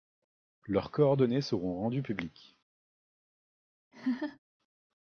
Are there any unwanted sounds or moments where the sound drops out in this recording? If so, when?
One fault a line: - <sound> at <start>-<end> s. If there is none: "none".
- laugh at 3.9-4.4 s